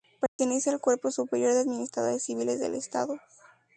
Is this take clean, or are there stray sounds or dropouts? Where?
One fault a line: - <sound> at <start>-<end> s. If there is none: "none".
- dropout at 0.3-0.4 s